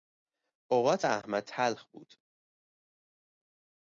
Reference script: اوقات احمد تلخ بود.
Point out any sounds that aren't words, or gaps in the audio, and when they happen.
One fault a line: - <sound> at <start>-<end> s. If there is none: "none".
none